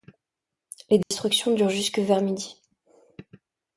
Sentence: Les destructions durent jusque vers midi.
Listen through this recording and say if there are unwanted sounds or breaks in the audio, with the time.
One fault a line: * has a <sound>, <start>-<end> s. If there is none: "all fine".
* has a dropout, 1.0-1.1 s